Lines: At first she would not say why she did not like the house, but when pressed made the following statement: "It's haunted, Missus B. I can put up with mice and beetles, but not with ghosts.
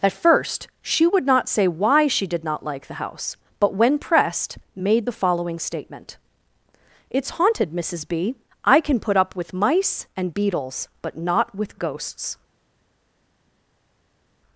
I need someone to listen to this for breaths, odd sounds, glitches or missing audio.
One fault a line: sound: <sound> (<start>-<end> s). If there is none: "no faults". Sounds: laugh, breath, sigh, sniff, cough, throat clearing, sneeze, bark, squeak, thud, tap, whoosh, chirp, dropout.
no faults